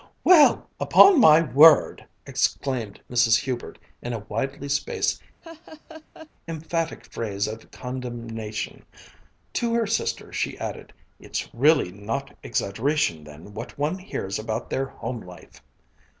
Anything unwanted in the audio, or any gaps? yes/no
yes